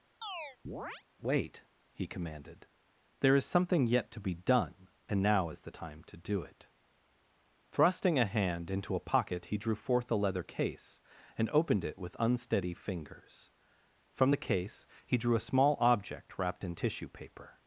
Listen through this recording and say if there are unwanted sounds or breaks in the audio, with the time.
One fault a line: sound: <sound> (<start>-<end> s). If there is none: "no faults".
sound: chirp (0.2-1.0 s)